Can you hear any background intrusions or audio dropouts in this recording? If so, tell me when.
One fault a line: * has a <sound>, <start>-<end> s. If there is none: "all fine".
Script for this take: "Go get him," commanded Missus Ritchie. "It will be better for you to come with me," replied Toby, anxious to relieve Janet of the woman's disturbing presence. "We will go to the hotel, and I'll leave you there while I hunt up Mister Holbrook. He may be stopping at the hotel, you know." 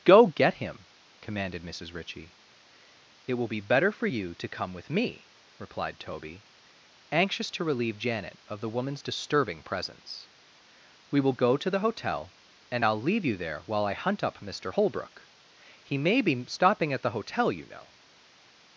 all fine